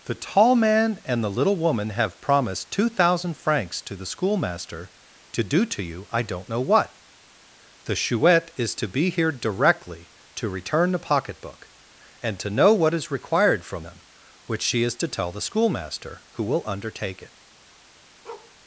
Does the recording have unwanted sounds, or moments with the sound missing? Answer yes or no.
yes